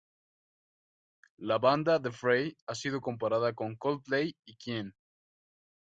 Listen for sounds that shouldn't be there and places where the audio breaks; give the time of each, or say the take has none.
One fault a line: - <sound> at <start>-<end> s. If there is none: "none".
none